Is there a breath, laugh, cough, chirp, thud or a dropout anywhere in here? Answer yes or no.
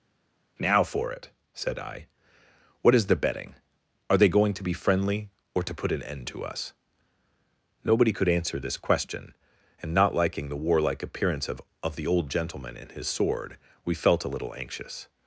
no